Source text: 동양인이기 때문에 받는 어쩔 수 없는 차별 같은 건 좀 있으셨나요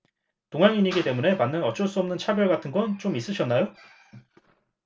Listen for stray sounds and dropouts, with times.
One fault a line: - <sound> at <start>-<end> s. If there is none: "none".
none